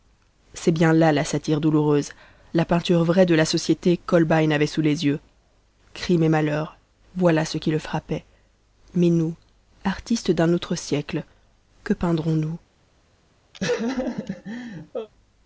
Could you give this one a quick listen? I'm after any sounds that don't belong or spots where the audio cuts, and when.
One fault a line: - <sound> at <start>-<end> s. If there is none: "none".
- laugh at 13.5-15.1 s